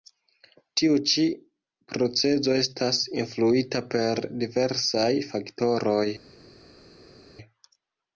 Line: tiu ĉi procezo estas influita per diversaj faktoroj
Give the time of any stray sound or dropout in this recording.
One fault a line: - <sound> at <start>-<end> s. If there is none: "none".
none